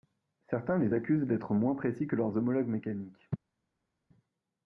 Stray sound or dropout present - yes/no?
no